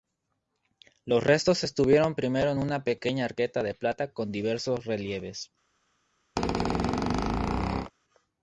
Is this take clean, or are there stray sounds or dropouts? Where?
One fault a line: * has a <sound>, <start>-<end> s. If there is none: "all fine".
* has a squeak, 6.4-7.9 s